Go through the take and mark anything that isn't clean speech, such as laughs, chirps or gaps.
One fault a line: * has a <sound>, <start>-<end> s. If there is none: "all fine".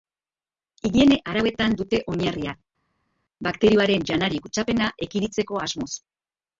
all fine